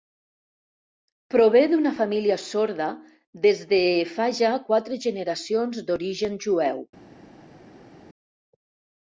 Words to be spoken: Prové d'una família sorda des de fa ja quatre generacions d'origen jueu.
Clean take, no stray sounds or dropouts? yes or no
yes